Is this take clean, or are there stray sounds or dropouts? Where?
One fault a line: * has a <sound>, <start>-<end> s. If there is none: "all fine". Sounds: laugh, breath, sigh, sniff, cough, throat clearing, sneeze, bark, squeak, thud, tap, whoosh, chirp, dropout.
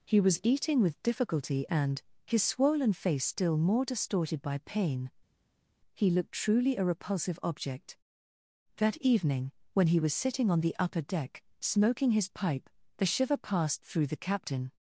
all fine